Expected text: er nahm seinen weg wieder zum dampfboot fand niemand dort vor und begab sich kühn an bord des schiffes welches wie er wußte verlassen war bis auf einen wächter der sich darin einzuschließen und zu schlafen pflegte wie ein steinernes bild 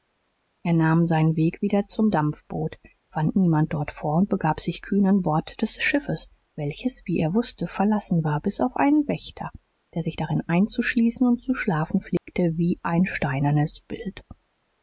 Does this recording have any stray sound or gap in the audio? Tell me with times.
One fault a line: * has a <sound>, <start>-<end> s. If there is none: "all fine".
* has a dropout, 12.2-12.3 s